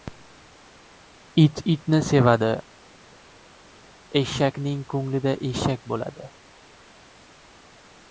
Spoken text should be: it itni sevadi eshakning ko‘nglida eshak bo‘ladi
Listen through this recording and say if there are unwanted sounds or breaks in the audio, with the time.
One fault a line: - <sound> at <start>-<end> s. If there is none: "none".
none